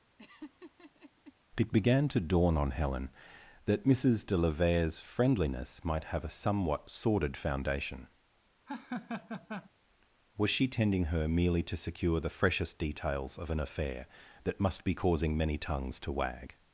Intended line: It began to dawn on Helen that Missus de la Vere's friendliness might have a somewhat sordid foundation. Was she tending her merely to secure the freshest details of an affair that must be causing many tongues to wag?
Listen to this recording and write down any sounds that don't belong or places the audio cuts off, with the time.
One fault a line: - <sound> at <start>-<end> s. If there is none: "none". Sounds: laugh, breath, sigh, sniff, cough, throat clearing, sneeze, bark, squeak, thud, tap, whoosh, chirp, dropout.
- laugh at 0.2-1.3 s
- laugh at 8.7-9.7 s